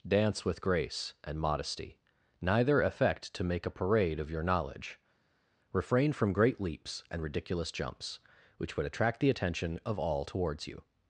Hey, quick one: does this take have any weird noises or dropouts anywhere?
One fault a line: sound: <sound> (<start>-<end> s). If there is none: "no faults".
no faults